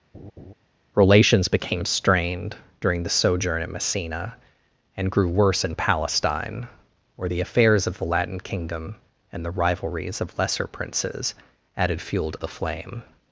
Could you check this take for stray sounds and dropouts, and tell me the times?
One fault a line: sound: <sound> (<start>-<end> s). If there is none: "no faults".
sound: laugh (0.1-0.5 s)